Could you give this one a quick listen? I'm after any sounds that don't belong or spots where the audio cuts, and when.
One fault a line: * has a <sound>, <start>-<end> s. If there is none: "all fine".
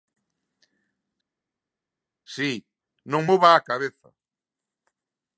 all fine